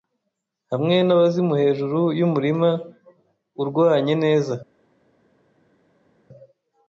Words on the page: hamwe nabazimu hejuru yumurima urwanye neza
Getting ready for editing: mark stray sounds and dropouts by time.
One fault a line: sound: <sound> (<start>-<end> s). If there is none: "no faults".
no faults